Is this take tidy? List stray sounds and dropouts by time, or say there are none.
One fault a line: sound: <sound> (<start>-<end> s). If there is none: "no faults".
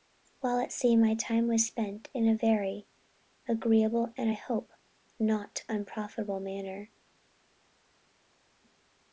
no faults